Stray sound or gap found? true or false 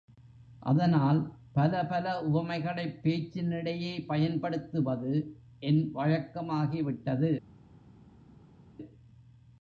false